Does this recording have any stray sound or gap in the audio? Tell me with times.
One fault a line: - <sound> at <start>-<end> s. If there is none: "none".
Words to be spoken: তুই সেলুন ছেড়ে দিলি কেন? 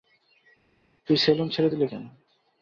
none